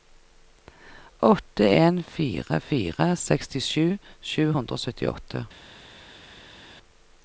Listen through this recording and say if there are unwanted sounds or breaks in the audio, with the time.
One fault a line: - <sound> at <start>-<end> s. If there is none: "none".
none